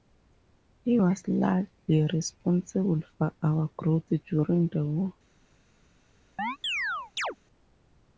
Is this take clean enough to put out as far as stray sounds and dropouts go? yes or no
no